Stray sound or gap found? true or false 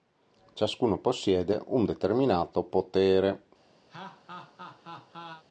true